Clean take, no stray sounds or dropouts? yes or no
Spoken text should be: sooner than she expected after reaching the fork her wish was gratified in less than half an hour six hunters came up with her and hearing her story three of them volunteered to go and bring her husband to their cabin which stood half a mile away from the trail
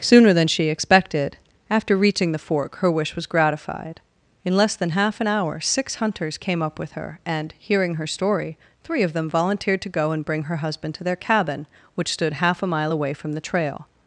yes